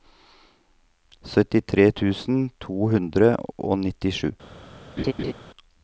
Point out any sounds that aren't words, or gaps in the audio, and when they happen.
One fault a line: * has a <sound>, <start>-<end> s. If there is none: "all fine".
* has a laugh, 5.0-5.3 s